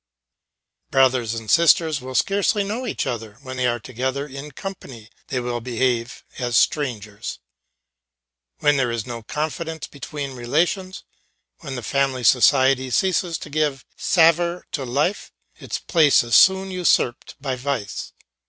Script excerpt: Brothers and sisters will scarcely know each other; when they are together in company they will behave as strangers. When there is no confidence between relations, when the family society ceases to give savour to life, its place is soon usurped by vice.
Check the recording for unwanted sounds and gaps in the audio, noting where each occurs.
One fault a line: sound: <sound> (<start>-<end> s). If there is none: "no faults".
no faults